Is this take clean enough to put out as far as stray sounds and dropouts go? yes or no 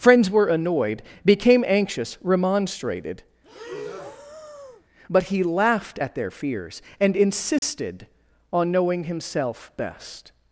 no